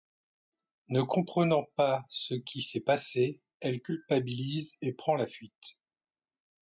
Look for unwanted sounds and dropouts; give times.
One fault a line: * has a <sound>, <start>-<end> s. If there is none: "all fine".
all fine